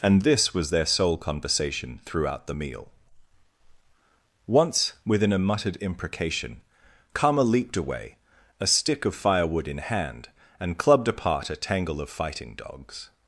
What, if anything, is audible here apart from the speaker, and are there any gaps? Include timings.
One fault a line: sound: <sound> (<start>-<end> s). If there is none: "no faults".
no faults